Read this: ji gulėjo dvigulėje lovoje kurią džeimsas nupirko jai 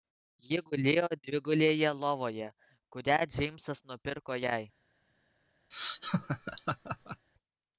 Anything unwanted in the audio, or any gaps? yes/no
yes